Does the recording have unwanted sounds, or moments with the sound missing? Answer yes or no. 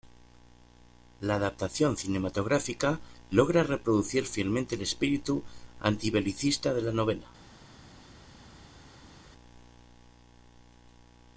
no